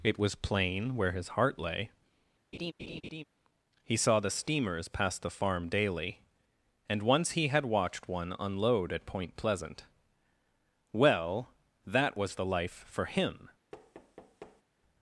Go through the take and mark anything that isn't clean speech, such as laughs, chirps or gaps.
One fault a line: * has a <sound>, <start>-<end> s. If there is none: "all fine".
* has a laugh, 2.5-3.2 s
* has a thud, 13.7-14.6 s